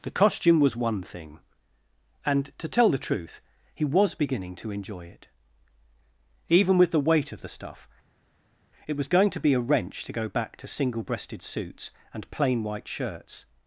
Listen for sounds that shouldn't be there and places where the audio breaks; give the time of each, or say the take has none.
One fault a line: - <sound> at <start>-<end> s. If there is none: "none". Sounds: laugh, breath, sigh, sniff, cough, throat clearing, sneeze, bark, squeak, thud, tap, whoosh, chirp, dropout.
none